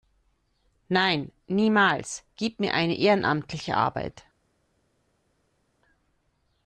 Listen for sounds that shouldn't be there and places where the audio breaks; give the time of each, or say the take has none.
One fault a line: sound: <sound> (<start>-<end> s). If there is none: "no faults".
no faults